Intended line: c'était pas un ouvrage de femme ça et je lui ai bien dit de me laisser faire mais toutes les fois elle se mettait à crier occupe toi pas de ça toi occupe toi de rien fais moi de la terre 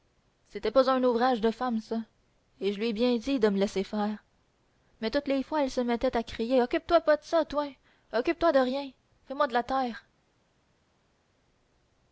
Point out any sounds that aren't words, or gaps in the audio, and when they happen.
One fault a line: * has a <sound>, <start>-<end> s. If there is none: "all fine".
all fine